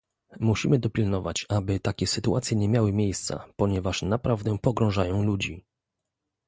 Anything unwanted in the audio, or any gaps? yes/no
no